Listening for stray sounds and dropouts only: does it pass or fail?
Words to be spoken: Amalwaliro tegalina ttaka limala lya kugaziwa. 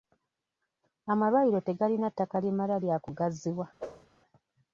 fail